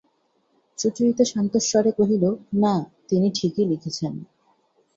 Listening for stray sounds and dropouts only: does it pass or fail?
pass